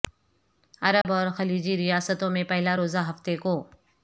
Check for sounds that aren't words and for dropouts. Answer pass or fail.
fail